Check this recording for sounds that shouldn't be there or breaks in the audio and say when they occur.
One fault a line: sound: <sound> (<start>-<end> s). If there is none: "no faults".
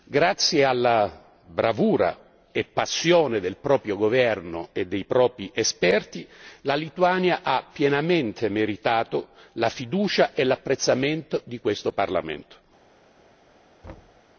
sound: thud (13.8-14.2 s)